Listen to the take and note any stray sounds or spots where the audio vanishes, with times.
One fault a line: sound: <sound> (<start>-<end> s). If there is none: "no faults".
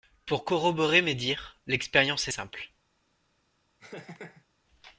sound: laugh (3.8-4.4 s)